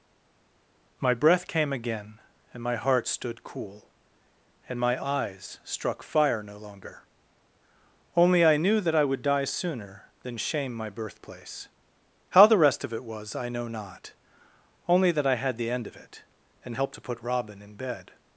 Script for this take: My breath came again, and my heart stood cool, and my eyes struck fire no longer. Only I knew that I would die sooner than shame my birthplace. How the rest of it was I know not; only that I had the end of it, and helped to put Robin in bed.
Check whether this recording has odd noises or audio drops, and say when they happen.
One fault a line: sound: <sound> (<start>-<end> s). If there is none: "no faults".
no faults